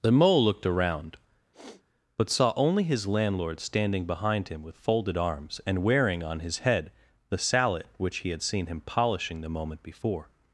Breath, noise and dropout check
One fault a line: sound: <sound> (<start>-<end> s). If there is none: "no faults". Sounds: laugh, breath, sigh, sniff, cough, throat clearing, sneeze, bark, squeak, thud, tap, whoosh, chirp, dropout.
sound: sniff (1.5-1.8 s)